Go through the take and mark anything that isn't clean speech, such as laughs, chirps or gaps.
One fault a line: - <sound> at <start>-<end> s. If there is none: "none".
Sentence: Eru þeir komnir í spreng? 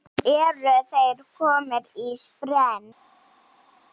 none